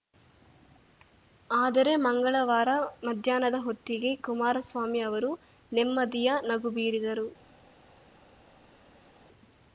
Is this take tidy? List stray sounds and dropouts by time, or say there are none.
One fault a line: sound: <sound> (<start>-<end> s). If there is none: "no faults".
no faults